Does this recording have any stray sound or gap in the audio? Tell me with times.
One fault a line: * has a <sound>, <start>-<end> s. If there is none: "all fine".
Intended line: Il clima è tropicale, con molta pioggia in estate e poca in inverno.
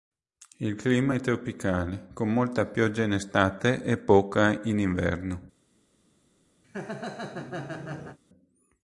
* has a laugh, 6.6-8.2 s